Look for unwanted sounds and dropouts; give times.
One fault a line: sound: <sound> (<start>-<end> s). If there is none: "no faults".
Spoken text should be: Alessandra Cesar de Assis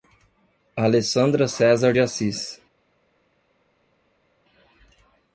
no faults